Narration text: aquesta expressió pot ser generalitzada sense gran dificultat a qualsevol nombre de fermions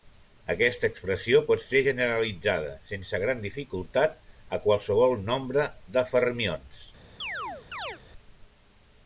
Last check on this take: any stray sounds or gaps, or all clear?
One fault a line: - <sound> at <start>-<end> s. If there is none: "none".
- chirp at 7.2-8.0 s